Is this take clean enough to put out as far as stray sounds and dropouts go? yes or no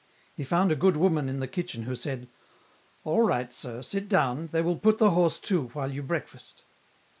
yes